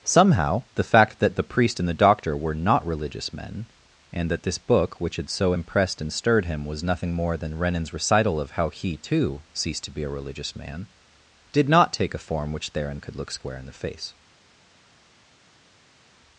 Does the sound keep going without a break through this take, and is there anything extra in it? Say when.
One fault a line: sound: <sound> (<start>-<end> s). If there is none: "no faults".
no faults